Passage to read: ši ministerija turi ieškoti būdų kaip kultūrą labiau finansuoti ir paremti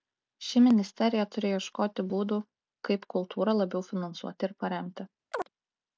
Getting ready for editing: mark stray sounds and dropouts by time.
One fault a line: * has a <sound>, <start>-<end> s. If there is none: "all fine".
* has a chirp, 5.3-5.5 s